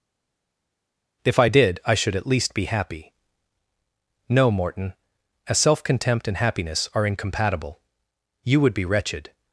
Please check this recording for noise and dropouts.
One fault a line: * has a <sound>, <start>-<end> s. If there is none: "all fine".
all fine